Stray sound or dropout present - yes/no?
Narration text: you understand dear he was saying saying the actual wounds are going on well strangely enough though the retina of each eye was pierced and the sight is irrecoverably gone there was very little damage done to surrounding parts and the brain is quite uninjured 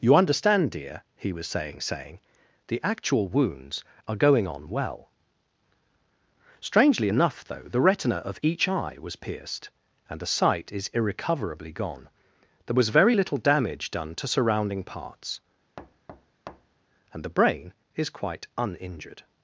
yes